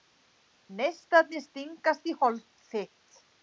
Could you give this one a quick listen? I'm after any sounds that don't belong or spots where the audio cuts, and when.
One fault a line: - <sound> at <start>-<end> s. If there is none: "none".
none